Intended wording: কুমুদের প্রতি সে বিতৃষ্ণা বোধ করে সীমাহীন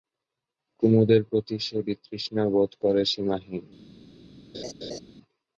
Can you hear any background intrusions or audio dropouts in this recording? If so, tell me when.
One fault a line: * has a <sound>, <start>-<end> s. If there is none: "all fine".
* has a laugh, 4.5-5.0 s